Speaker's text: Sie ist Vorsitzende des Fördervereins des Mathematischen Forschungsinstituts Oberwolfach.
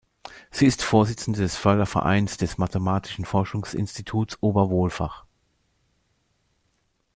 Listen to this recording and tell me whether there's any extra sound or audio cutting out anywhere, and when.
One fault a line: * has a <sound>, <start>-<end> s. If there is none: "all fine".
all fine